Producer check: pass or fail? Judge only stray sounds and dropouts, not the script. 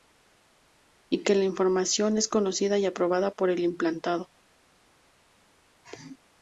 pass